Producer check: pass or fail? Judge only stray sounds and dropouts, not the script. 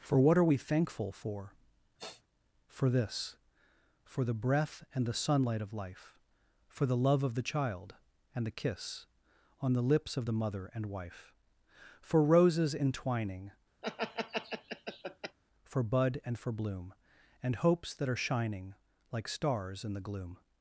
fail